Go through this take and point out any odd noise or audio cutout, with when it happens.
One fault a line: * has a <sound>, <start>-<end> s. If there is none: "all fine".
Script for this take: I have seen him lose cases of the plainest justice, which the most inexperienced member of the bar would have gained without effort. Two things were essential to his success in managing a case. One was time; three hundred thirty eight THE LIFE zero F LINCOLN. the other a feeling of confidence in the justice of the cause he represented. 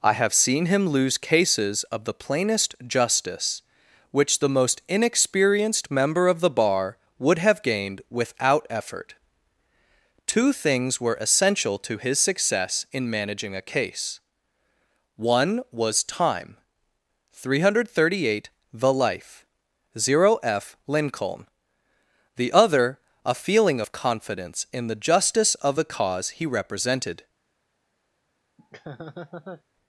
* has a laugh, 28.6-29.6 s